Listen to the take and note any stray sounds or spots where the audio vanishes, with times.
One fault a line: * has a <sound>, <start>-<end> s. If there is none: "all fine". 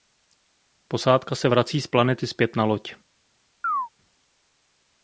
* has a chirp, 3.6-3.9 s